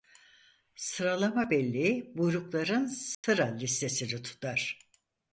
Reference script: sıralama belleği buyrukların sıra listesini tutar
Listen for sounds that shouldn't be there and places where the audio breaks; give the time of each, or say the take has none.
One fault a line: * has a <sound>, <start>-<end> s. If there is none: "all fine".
* has a dropout, 3.1-3.2 s